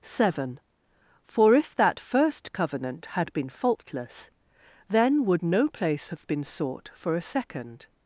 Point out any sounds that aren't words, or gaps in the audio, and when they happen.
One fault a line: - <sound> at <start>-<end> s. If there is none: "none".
none